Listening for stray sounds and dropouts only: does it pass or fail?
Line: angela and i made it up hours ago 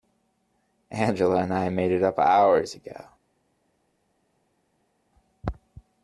pass